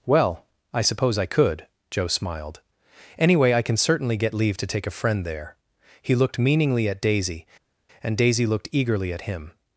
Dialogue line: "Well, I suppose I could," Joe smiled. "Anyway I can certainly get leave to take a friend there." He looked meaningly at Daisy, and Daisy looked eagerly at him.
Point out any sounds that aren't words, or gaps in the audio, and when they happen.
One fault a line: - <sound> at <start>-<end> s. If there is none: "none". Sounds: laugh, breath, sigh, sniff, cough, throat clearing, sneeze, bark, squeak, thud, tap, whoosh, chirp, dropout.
none